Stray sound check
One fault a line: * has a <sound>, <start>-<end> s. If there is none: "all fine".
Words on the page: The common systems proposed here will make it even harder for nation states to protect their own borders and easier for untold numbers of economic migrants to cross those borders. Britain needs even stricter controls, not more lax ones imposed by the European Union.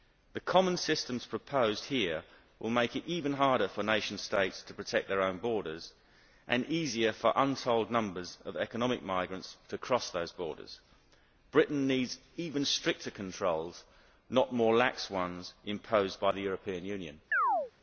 * has a chirp, 17.3-17.7 s